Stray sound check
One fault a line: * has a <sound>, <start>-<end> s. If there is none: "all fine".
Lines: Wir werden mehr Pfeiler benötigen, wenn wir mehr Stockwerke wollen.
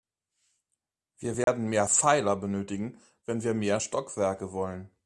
* has a dropout, 1.4-1.5 s